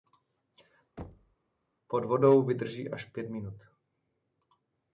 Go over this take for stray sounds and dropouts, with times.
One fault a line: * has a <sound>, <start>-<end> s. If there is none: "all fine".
* has a thud, 1.0-1.4 s